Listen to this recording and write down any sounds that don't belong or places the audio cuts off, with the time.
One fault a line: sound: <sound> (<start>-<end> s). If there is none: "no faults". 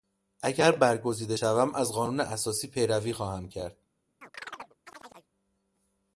sound: chirp (4.2-5.3 s)